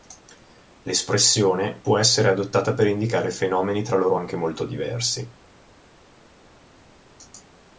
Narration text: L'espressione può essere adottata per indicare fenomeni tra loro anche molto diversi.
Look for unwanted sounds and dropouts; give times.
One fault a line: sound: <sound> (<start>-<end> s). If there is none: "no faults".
no faults